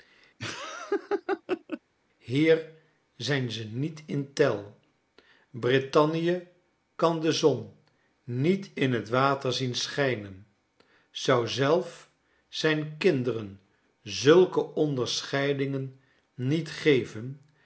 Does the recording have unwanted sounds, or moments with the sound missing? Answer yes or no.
yes